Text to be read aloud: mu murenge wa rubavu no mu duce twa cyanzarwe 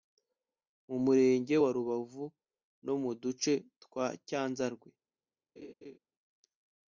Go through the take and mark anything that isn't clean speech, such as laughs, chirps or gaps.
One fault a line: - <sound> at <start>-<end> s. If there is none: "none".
- laugh at 5.6-6.0 s